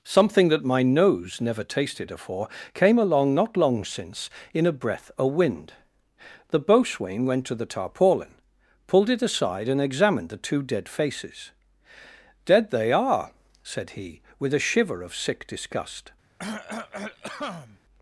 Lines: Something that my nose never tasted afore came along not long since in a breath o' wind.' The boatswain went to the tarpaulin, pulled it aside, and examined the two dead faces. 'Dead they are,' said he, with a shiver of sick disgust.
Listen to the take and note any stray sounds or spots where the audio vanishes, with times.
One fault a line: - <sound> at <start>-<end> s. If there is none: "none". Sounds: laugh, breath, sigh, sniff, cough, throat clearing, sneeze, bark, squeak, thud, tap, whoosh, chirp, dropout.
- cough at 16.4-17.8 s